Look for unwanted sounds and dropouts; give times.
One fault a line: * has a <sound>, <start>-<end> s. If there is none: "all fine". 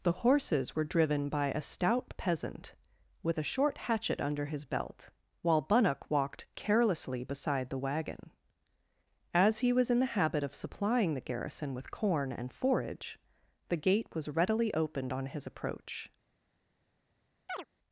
* has a chirp, 17.5-17.7 s